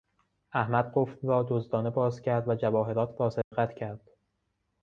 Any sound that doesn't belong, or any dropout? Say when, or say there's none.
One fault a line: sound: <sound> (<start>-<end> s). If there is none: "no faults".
sound: dropout (3.4-3.5 s)